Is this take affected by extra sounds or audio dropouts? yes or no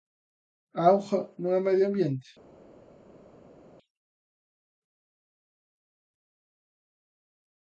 no